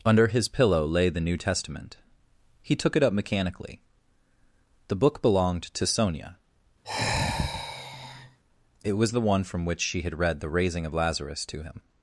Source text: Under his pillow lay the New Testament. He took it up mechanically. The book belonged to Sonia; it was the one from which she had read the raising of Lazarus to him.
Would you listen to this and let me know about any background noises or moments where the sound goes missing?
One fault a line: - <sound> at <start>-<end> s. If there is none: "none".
- sigh at 6.8-8.4 s